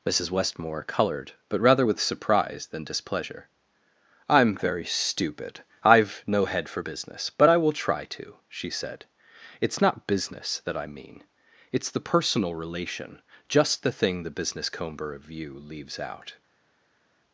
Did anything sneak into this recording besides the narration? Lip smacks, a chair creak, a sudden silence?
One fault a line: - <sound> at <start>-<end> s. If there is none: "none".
none